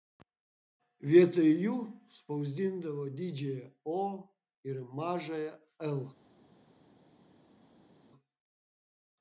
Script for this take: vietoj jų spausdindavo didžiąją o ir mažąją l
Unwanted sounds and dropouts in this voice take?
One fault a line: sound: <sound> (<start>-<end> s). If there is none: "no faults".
no faults